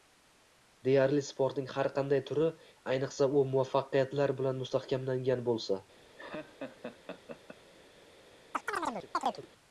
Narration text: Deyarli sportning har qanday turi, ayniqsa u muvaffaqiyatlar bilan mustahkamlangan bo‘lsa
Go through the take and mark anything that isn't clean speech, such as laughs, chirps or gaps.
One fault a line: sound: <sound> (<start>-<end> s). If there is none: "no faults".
sound: laugh (6.2-7.6 s)
sound: chirp (8.5-9.5 s)